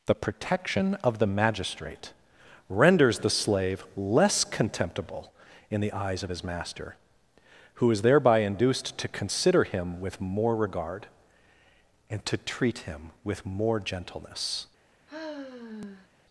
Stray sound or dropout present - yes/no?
yes